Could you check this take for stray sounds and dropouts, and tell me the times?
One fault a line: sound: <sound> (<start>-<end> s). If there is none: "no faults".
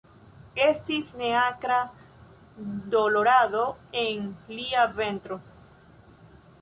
no faults